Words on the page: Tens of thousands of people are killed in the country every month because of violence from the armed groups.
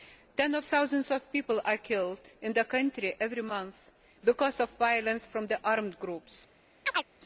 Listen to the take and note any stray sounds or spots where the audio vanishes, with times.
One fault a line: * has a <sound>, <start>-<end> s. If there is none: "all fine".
* has a chirp, 6.9-7.1 s